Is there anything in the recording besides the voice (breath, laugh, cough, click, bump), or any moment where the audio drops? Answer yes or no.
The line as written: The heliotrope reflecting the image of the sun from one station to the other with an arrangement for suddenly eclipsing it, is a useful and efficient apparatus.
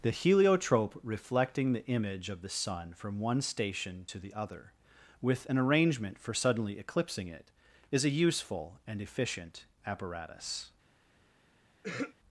yes